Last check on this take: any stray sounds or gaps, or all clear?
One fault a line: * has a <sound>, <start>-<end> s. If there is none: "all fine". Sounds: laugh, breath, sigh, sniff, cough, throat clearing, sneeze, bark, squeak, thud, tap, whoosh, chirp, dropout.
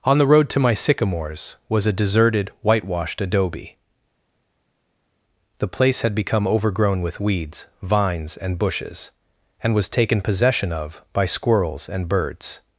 all fine